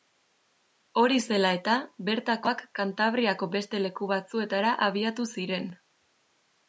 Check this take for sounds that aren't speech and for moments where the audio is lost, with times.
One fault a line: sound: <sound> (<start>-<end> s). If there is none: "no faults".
no faults